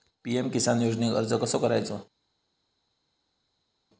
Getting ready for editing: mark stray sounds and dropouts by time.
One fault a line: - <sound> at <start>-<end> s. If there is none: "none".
none